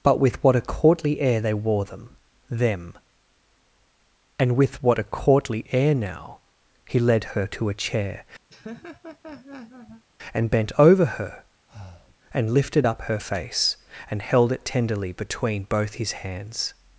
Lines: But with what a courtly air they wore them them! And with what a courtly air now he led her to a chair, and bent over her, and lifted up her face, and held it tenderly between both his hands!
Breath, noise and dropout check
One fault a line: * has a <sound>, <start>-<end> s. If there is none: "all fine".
* has a laugh, 8.5-10.0 s
* has a breath, 11.7-12.2 s